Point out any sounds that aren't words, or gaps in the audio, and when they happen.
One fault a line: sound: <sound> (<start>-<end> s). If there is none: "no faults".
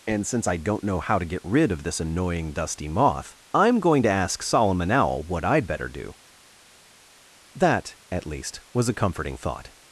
no faults